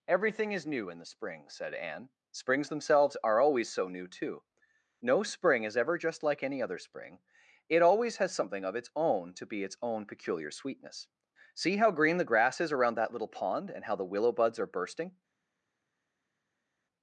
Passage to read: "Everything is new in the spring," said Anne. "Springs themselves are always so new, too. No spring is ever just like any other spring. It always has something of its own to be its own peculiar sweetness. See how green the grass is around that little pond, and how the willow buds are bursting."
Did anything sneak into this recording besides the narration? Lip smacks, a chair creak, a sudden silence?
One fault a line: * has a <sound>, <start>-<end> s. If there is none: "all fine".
all fine